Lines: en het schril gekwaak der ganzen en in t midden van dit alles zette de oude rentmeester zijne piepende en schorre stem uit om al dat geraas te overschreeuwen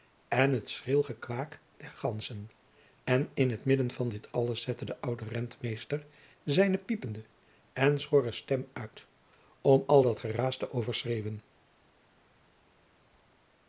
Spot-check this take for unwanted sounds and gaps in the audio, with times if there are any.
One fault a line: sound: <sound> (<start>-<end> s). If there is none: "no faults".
no faults